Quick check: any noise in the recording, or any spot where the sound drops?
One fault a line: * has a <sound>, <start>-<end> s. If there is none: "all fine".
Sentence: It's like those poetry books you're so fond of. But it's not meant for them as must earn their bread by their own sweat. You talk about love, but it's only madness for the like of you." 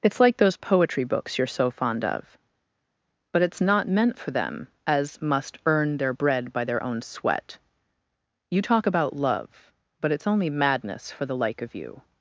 all fine